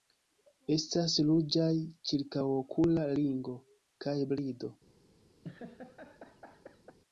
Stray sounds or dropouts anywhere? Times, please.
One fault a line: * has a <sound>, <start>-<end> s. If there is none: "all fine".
* has a laugh, 5.4-7.0 s